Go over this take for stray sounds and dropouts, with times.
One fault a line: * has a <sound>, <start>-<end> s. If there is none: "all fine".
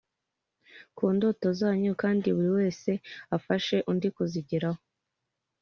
all fine